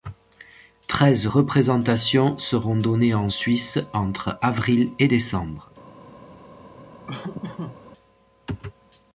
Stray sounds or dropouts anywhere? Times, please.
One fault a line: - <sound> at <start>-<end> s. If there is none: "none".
- laugh at 7.1-7.8 s